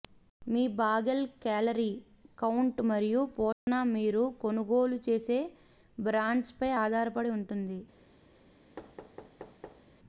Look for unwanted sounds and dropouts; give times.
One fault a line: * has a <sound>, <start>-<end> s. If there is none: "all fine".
* has a dropout, 3.5-3.7 s
* has a thud, 8.8-9.8 s